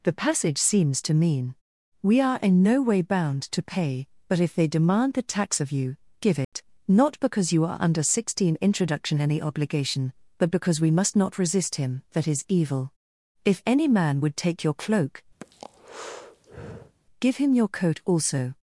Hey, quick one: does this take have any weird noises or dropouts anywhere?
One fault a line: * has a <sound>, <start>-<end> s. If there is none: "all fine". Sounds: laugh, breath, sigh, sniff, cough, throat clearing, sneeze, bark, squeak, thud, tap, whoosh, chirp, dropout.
* has a dropout, 6.4-6.5 s
* has a breath, 15.4-17.0 s